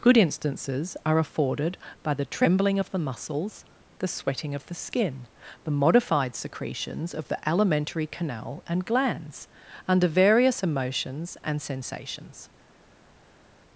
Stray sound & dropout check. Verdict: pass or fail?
pass